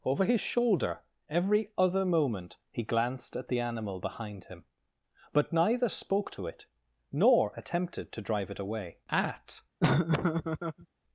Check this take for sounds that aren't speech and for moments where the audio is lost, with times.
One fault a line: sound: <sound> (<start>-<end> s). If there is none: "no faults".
sound: laugh (9.8-10.9 s)